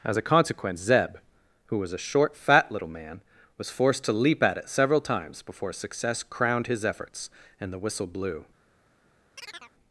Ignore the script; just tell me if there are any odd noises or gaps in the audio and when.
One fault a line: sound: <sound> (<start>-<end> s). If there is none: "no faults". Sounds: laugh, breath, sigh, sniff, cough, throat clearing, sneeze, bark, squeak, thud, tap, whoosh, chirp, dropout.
sound: chirp (9.4-9.7 s)